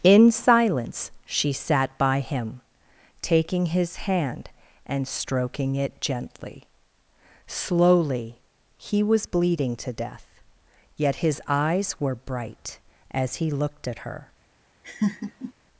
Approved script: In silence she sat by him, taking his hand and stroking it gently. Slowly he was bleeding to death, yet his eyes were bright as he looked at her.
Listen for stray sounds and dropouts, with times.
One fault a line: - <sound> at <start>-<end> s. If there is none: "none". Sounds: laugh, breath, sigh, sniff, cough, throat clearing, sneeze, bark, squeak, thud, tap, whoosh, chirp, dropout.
- laugh at 14.8-15.5 s